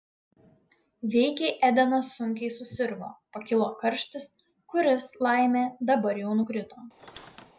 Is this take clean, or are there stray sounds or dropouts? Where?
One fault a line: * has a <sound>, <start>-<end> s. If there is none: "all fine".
* has a squeak, 7.0-7.5 s